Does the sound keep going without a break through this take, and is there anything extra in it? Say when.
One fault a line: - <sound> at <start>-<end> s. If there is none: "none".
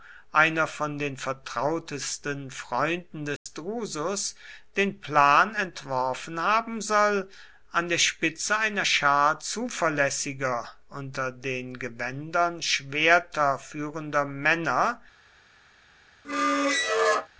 - dropout at 3.4-3.5 s
- squeak at 16.2-17.3 s